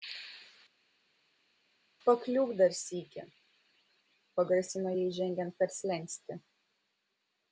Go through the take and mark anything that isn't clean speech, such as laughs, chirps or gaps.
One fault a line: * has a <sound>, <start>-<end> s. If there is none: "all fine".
all fine